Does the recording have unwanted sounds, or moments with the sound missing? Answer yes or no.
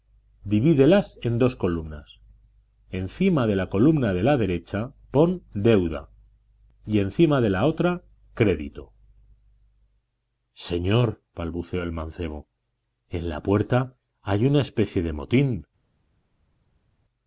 no